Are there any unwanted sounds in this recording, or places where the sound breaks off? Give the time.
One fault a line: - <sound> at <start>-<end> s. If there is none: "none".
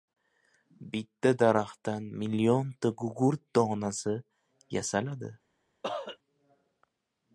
- cough at 5.8-6.2 s